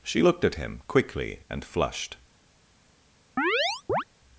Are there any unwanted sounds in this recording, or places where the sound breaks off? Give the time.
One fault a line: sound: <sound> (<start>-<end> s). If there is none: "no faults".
sound: chirp (3.4-4.0 s)